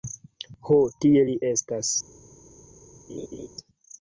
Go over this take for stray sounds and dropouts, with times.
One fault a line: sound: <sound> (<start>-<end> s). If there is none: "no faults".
sound: laugh (3.1-3.5 s)